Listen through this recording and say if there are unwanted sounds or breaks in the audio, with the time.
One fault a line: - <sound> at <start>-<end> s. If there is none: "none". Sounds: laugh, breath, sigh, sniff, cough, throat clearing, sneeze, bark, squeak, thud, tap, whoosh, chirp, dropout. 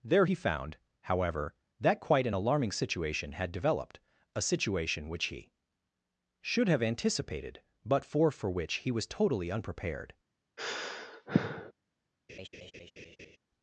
- sigh at 10.6-11.7 s
- laugh at 12.3-13.4 s